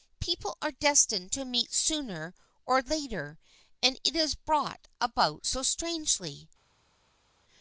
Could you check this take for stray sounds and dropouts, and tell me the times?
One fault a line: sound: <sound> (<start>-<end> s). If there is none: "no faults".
no faults